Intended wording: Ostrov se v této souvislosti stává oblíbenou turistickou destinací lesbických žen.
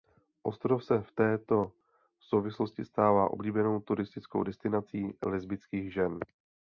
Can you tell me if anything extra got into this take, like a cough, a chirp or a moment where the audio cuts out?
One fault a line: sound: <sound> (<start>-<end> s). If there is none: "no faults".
no faults